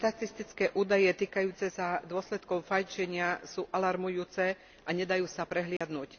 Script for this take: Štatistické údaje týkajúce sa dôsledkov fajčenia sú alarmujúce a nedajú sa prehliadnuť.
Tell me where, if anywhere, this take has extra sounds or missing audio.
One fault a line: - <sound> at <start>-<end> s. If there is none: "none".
- dropout at 5.8-5.8 s